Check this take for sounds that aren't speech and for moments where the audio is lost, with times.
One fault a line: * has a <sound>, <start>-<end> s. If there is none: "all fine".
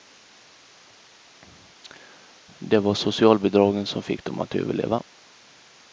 all fine